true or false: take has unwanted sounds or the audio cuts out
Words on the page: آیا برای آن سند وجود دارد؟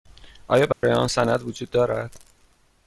true